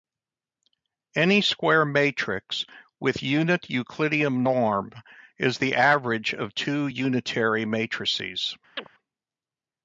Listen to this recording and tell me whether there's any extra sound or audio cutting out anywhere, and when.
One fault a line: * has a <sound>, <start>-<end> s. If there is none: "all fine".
* has a chirp, 8.8-8.9 s